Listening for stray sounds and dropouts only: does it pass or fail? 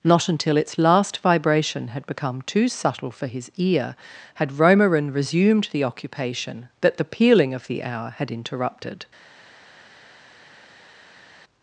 pass